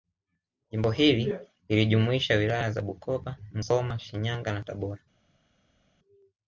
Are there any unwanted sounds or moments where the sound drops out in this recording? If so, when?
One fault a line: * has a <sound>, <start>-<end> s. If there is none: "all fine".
all fine